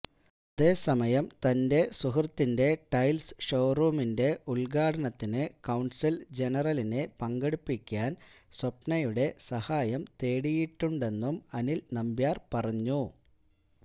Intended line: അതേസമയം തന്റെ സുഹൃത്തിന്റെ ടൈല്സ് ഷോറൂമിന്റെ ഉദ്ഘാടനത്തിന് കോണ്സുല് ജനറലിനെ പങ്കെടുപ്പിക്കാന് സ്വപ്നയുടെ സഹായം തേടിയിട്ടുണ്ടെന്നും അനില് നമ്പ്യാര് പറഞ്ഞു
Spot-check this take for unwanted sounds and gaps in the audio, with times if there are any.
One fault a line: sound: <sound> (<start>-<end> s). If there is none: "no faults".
no faults